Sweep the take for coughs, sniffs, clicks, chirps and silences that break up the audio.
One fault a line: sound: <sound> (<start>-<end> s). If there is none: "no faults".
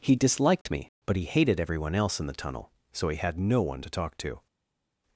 no faults